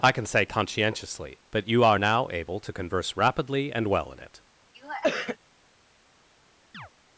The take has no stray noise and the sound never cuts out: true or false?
false